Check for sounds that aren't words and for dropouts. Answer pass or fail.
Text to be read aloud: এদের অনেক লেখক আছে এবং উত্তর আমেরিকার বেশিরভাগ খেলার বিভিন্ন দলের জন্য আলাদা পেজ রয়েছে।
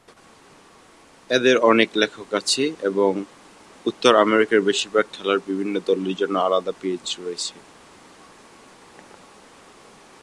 pass